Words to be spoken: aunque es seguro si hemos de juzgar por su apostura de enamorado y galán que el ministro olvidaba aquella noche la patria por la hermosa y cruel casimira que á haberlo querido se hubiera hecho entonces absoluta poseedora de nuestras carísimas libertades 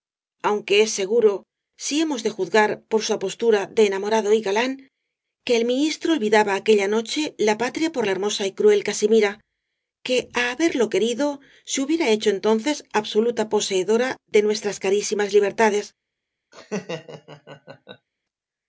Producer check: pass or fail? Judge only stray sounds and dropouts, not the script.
fail